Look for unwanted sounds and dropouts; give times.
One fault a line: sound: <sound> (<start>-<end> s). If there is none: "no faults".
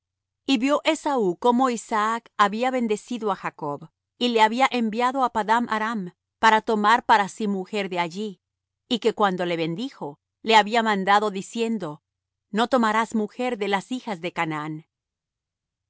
no faults